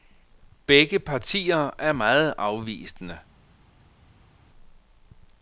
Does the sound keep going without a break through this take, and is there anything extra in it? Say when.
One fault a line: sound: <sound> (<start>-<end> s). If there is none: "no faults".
no faults